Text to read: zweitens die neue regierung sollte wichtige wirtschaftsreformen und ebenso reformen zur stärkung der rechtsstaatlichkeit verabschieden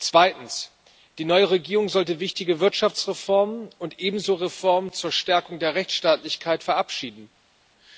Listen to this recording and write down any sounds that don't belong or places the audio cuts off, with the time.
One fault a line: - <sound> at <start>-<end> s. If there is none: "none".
none